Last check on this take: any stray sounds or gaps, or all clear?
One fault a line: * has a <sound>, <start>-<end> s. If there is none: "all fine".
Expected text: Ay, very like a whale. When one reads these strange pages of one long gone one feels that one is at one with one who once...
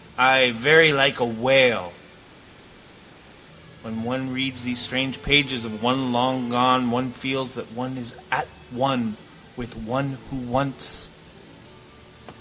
all fine